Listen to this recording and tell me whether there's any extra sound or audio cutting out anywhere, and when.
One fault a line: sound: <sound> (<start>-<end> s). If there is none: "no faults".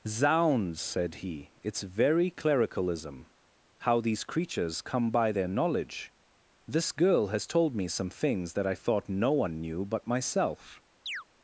sound: chirp (11.1-11.2 s)